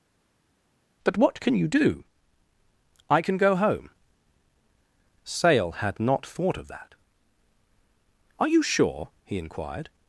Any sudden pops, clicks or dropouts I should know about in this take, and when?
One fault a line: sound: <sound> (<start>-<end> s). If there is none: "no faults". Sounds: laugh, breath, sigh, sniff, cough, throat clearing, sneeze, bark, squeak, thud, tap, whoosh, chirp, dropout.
no faults